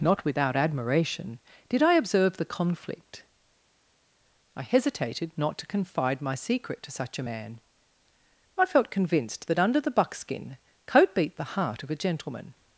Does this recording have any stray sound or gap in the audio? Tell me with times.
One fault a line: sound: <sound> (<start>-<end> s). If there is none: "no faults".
no faults